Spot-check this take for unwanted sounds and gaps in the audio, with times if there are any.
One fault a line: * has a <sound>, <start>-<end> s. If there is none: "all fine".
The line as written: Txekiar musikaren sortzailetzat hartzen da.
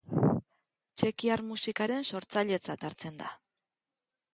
all fine